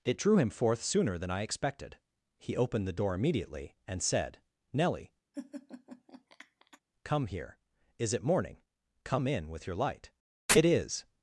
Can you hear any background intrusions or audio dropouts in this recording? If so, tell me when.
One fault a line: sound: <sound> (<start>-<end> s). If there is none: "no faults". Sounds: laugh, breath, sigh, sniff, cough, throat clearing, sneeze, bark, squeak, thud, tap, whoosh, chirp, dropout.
sound: laugh (5.3-6.8 s)